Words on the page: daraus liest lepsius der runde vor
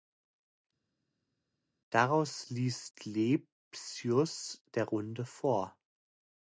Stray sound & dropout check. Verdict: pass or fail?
pass